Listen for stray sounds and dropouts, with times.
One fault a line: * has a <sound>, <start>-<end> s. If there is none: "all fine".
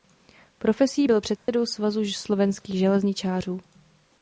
* has a dropout, 1.4-1.5 s